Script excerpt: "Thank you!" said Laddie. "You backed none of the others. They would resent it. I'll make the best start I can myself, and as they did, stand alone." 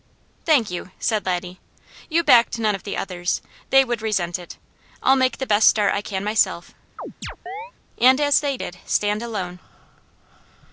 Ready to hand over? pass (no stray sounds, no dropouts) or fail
fail